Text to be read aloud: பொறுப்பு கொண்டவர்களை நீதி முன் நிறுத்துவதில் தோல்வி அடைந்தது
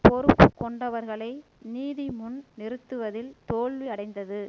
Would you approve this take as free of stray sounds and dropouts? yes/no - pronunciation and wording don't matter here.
yes